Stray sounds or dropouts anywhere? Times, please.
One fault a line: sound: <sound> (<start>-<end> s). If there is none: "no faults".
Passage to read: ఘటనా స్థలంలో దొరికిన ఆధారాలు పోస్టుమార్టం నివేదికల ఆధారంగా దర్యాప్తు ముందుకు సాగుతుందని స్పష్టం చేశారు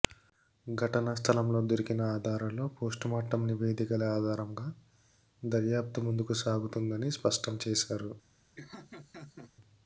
sound: laugh (8.6-9.5 s)